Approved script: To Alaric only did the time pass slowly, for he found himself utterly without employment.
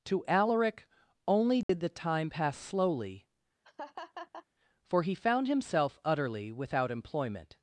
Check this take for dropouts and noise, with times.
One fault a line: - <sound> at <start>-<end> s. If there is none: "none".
- dropout at 1.6-1.7 s
- laugh at 3.6-4.5 s